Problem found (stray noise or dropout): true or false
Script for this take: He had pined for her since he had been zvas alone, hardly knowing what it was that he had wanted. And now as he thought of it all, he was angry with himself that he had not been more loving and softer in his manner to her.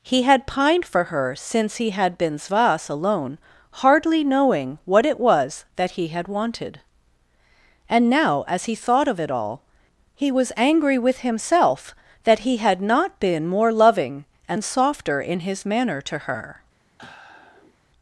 true